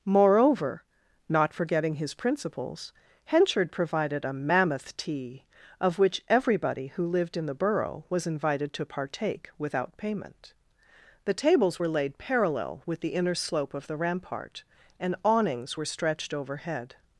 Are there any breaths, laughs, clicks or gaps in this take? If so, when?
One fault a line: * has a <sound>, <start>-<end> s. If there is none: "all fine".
all fine